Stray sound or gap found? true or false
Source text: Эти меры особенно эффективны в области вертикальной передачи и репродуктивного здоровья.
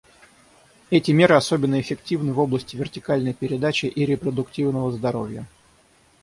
false